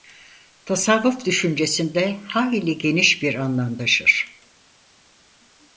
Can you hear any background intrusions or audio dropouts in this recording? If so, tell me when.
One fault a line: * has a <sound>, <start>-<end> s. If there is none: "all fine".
all fine